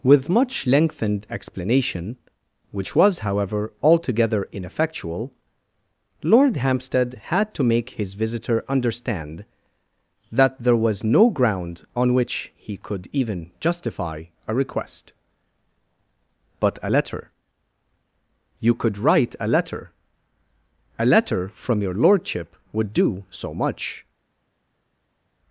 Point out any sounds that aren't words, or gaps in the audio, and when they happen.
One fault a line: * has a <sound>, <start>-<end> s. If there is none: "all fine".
all fine